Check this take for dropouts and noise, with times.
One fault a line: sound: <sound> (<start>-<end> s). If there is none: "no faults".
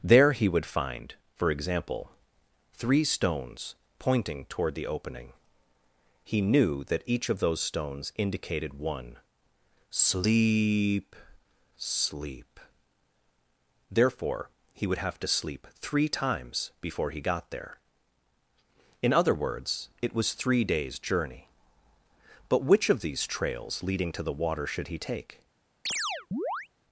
sound: chirp (25.9-26.7 s)